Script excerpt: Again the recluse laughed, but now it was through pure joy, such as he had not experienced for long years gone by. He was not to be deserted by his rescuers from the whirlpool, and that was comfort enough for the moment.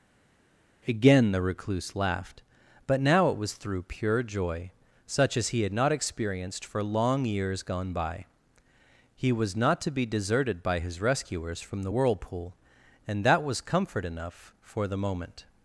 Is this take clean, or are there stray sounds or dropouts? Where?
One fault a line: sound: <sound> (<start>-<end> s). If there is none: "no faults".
no faults